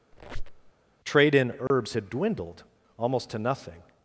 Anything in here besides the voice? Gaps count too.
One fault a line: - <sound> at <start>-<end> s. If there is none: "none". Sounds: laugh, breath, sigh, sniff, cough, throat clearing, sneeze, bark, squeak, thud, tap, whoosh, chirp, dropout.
- squeak at 0.1-0.7 s
- dropout at 1.7-1.7 s